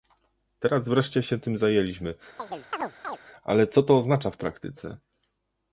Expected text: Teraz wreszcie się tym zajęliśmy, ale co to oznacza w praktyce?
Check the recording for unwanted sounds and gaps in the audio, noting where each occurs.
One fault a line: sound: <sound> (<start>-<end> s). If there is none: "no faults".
sound: chirp (2.4-3.2 s)